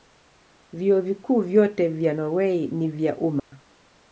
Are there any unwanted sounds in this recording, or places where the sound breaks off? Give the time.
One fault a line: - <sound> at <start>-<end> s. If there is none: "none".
- dropout at 3.4-3.5 s